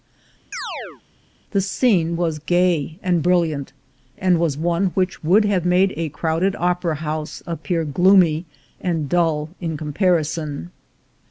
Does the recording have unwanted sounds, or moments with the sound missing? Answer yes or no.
yes